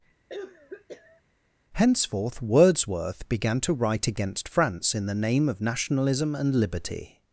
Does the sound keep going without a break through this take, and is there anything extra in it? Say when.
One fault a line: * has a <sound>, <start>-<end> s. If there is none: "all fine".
* has a cough, 0.3-1.2 s